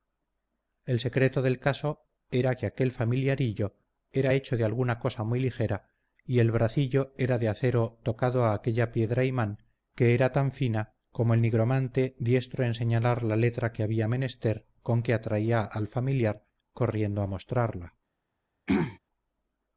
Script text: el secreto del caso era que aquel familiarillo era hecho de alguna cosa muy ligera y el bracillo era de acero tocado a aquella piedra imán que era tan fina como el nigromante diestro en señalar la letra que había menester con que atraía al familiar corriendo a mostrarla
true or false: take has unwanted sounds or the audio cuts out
true